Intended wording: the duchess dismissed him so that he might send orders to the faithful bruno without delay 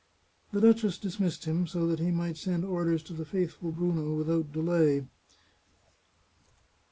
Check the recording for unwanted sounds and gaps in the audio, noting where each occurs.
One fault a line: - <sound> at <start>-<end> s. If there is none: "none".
none